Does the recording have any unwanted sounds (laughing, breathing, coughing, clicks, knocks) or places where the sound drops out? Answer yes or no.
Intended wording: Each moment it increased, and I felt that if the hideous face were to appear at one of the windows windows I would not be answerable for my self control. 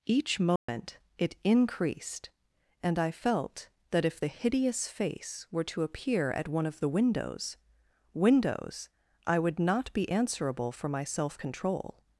yes